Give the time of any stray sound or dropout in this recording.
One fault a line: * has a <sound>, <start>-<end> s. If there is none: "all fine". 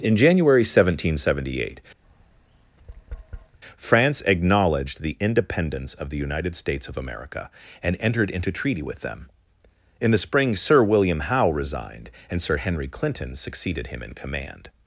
* has a tap, 2.0-3.6 s